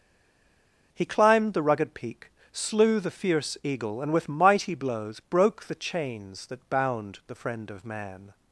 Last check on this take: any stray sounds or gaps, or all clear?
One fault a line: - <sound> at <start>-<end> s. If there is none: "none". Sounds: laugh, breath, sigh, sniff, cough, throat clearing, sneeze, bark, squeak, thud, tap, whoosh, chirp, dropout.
none